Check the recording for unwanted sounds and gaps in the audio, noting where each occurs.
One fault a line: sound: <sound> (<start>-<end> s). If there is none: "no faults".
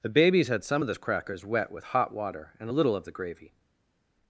no faults